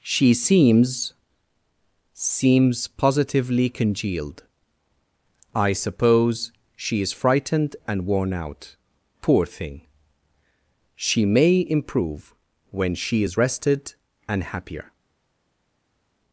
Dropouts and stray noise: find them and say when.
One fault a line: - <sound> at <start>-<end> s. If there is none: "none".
none